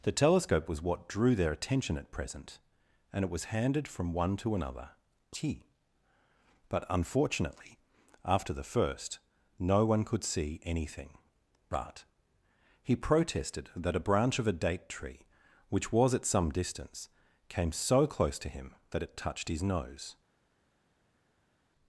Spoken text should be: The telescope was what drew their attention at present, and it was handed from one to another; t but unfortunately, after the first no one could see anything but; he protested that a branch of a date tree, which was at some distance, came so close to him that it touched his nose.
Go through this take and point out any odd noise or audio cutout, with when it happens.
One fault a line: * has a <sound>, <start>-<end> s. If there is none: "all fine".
all fine